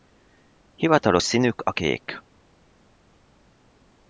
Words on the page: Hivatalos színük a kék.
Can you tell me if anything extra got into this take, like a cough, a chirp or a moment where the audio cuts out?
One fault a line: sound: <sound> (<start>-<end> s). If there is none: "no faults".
no faults